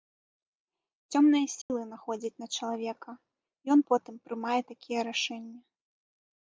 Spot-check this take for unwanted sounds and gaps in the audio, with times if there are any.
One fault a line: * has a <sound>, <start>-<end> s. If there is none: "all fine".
* has a dropout, 1.6-1.7 s